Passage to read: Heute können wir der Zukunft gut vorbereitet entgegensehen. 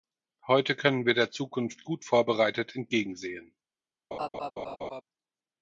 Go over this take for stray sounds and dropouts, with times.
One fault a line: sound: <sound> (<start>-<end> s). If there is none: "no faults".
sound: laugh (4.1-5.0 s)